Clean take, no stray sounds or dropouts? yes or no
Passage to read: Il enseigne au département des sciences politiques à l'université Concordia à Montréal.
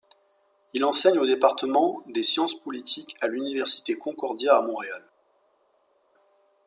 yes